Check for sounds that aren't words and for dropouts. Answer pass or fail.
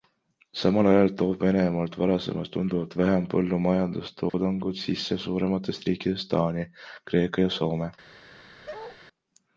fail